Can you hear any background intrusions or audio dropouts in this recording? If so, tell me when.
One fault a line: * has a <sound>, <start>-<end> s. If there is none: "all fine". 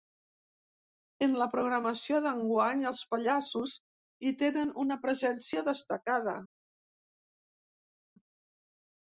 all fine